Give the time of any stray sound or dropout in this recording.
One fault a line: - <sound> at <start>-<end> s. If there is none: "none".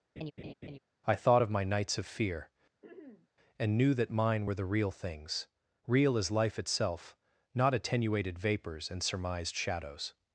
- laugh at 0.2-0.8 s
- throat clearing at 2.8-3.3 s